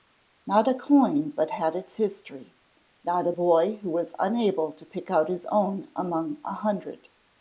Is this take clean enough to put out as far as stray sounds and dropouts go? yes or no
yes